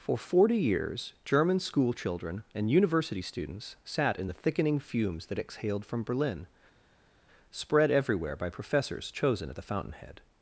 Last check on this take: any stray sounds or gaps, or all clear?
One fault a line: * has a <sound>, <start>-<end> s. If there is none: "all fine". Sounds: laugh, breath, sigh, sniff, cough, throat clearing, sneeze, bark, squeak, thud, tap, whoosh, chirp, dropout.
all fine